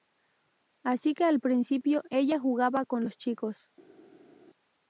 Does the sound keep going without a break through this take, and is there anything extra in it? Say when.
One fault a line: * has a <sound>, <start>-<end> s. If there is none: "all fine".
all fine